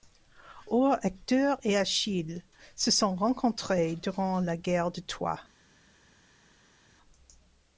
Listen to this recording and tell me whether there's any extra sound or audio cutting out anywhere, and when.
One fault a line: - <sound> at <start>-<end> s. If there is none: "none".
none